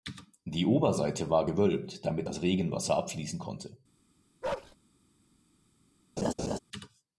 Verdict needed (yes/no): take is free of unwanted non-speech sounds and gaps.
no